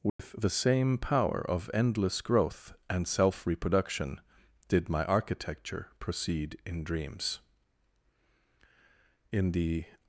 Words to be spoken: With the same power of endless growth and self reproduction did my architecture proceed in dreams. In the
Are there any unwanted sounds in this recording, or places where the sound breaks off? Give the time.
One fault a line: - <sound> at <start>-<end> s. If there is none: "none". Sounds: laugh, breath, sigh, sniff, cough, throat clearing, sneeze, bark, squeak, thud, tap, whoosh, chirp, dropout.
- dropout at 0.1-0.2 s